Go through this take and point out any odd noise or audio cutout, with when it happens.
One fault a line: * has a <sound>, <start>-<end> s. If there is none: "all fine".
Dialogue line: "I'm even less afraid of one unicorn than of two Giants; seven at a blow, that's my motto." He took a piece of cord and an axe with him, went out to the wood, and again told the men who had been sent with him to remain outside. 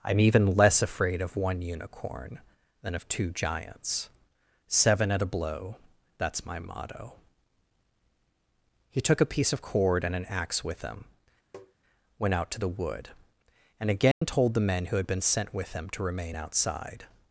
* has a tap, 11.5-11.7 s
* has a dropout, 14.1-14.2 s